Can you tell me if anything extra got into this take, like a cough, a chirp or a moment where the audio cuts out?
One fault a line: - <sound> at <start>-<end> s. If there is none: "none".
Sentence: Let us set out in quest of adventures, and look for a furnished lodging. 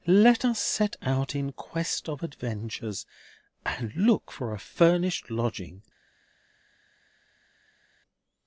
none